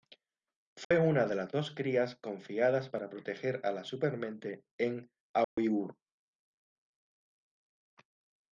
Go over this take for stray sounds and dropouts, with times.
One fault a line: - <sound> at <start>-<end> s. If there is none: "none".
- dropout at 0.8-0.9 s
- dropout at 5.4-5.6 s